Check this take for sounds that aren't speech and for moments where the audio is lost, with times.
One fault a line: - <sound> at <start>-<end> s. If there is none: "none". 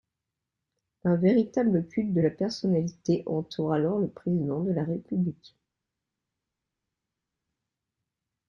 none